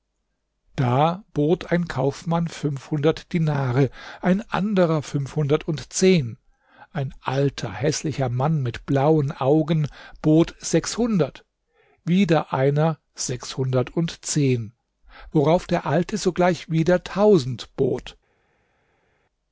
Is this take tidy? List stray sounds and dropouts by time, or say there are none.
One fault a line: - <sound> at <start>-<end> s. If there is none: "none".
none